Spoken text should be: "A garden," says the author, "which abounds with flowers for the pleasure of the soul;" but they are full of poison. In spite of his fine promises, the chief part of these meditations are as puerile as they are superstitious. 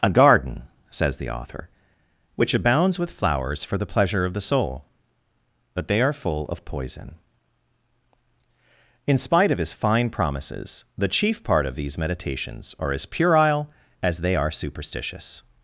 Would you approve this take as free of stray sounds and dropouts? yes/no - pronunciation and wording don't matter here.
yes